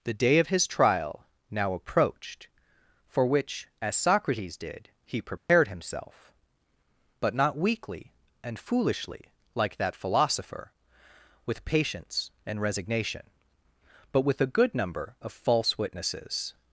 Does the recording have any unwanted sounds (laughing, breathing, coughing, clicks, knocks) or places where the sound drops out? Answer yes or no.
yes